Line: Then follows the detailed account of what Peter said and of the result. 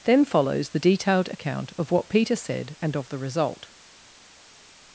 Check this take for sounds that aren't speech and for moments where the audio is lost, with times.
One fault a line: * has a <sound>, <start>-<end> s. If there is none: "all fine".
all fine